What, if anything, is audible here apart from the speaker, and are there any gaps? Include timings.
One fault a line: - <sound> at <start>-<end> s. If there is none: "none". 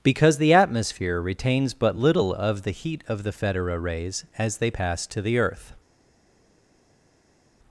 none